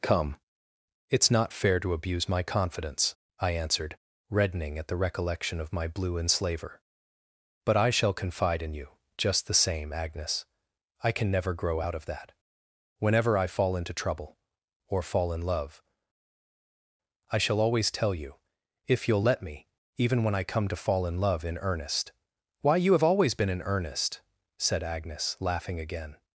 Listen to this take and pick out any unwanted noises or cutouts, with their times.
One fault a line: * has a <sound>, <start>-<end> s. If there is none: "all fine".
all fine